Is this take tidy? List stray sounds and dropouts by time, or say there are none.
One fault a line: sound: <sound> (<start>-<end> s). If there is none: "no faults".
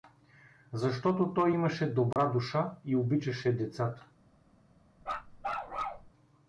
sound: dropout (2.1-2.2 s)
sound: bark (5.0-6.1 s)